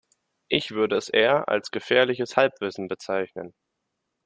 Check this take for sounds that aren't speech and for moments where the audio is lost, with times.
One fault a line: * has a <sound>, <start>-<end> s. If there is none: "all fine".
all fine